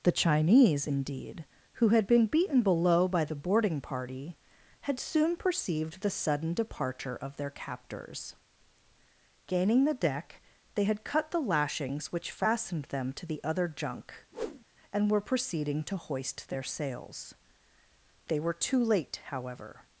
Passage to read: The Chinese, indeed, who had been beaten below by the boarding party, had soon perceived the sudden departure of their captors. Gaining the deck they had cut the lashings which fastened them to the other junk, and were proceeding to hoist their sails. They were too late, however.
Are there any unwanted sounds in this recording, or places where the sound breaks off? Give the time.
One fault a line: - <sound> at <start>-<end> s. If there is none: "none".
- whoosh at 14.3-14.6 s